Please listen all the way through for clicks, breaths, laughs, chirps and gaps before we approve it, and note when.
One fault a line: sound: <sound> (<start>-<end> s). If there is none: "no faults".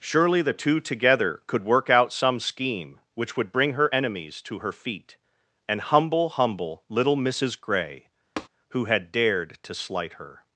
sound: tap (8.4-8.5 s)